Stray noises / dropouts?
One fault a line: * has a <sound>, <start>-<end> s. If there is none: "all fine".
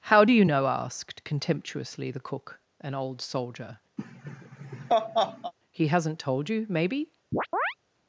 * has a laugh, 4.0-5.5 s
* has a chirp, 7.3-7.7 s